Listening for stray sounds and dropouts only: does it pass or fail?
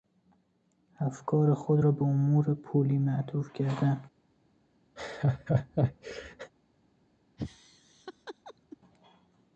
fail